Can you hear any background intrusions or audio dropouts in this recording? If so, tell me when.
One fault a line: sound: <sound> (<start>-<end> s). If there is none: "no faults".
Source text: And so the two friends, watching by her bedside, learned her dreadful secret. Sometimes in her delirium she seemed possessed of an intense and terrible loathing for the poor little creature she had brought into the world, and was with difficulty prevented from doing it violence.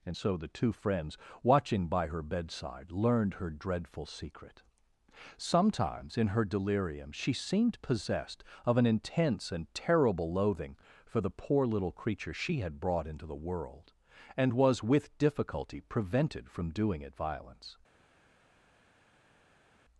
no faults